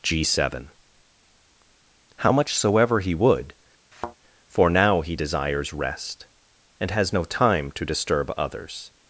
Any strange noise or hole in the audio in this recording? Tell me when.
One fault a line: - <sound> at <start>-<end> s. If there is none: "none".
- thud at 3.9-4.2 s